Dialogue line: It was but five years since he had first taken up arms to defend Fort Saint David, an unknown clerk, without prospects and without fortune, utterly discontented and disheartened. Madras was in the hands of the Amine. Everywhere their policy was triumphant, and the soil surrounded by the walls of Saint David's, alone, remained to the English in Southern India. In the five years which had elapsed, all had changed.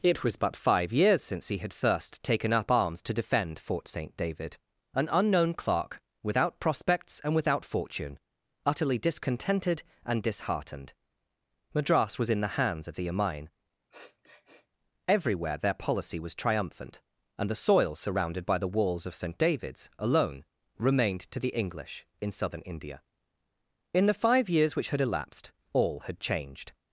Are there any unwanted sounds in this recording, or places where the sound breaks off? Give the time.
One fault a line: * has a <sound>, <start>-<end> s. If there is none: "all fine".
* has a sniff, 13.9-14.7 s